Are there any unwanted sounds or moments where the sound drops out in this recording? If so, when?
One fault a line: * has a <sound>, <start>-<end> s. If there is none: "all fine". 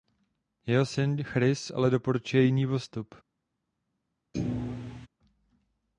* has a thud, 4.3-5.1 s